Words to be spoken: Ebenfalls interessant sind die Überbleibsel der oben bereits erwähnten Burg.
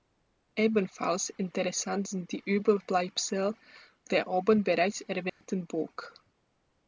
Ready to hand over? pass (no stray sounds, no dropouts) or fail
fail